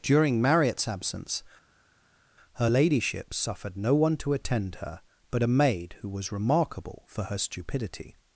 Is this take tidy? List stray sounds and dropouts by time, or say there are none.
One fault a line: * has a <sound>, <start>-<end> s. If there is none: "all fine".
all fine